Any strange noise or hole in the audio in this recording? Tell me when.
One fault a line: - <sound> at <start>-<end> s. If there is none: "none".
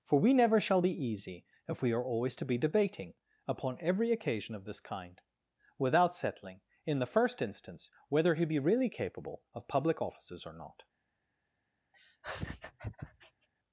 - laugh at 11.9-13.5 s